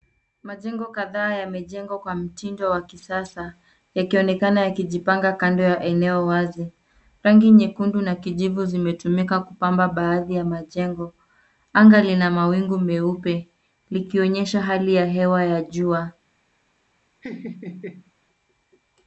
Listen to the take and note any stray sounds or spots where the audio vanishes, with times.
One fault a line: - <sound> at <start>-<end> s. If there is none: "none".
- laugh at 17.2-18.1 s